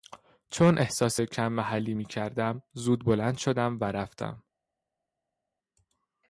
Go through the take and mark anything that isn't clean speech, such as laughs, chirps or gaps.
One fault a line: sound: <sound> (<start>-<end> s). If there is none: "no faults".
no faults